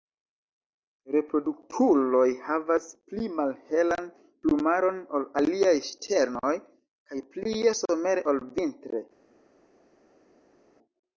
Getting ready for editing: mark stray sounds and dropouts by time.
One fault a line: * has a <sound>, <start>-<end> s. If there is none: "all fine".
all fine